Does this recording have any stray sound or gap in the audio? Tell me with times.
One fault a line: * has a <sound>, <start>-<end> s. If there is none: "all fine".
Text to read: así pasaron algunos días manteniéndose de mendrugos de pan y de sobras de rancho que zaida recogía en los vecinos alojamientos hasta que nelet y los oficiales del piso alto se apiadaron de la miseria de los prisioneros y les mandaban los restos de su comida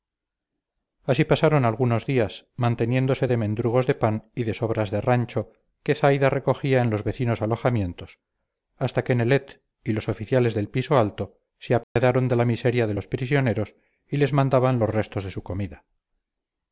* has a dropout, 11.8-12.0 s